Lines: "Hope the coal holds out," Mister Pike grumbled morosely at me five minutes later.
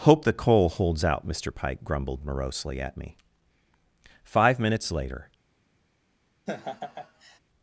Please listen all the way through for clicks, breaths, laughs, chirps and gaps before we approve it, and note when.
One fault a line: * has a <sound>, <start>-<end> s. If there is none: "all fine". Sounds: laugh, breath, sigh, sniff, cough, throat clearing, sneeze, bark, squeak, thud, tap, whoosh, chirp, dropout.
* has a laugh, 6.5-7.4 s